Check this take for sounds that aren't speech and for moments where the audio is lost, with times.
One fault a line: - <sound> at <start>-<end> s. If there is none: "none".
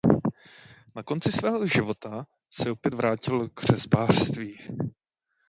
none